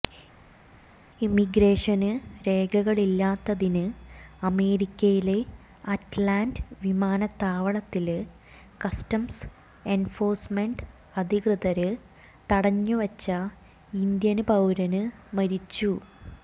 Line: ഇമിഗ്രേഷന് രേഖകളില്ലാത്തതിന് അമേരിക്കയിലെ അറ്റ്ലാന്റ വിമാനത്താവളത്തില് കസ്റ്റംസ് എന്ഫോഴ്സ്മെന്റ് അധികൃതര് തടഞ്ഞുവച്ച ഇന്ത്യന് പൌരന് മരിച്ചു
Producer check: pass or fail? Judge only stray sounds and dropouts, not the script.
pass